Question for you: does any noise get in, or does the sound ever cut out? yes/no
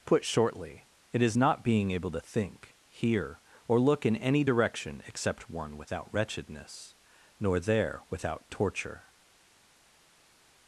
no